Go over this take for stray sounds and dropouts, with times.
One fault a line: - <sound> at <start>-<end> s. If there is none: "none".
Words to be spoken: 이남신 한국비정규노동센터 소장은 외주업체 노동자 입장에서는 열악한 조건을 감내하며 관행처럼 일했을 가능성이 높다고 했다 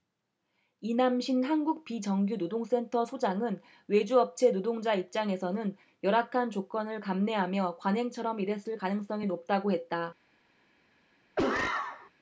- cough at 11.4-12.1 s